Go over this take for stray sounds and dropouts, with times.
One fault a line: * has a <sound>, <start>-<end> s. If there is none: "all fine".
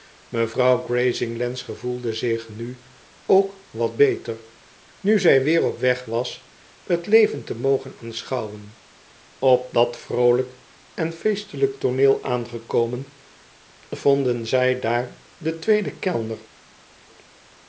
all fine